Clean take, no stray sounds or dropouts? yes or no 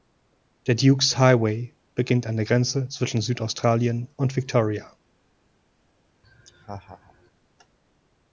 no